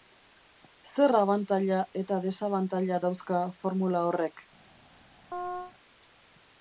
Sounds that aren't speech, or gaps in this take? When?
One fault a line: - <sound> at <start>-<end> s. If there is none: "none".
- chirp at 5.3-5.7 s